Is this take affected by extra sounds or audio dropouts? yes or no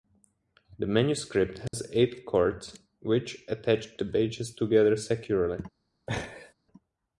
yes